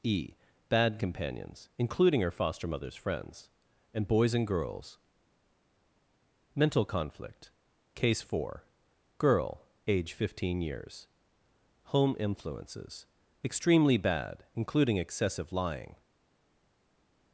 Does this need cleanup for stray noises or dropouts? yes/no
no